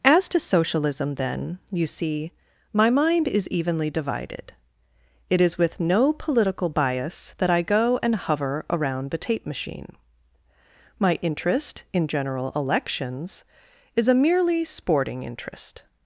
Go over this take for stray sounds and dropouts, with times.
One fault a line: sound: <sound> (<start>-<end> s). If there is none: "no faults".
no faults